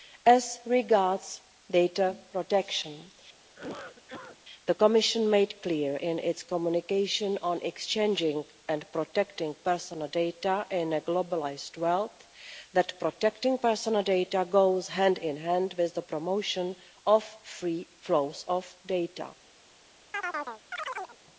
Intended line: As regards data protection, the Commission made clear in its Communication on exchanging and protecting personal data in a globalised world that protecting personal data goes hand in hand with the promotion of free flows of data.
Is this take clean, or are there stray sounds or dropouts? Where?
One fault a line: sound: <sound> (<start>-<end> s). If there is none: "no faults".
sound: cough (3.4-4.4 s)
sound: chirp (20.1-21.2 s)